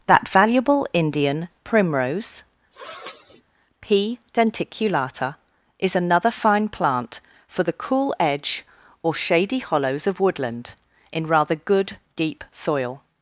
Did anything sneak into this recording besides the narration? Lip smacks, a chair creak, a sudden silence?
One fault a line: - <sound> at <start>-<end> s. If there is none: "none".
- sniff at 2.7-3.4 s